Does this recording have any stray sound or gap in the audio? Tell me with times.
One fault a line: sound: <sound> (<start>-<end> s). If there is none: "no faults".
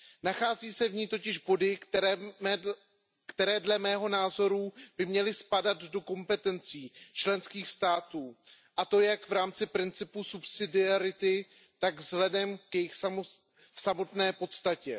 no faults